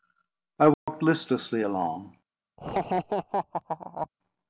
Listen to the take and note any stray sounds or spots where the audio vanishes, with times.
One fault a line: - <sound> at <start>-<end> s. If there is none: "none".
- dropout at 0.7-0.9 s
- laugh at 2.6-4.1 s